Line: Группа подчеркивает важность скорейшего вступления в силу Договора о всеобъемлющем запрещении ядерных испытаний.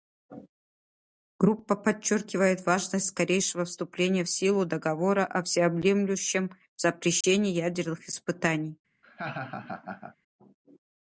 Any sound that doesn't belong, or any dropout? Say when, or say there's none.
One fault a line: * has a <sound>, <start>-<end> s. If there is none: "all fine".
* has a dropout, 7.2-7.2 s
* has a laugh, 9.0-10.2 s